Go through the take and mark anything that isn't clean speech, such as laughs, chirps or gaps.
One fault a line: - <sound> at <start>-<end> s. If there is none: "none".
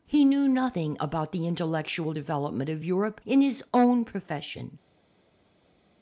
none